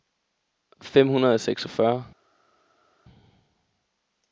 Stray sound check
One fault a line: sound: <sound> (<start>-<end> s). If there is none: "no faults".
no faults